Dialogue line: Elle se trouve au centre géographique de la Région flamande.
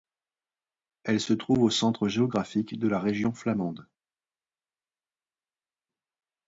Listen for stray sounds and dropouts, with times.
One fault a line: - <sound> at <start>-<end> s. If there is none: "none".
none